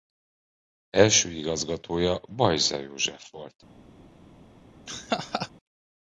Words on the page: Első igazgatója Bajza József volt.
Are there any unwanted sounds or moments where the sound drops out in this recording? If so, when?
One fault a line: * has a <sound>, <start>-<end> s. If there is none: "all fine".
* has a laugh, 4.9-5.5 s